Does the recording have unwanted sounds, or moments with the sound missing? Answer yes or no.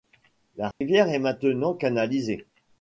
yes